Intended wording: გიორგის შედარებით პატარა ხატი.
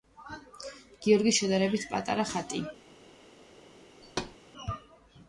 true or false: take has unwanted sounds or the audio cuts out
true